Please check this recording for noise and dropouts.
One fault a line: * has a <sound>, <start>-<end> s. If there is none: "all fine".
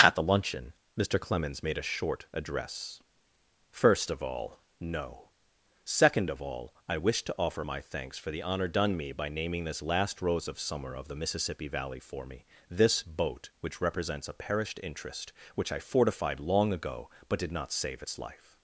all fine